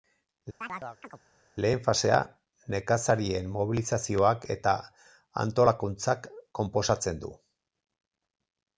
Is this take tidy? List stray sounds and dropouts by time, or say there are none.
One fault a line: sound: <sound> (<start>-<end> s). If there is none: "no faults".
sound: chirp (0.6-1.2 s)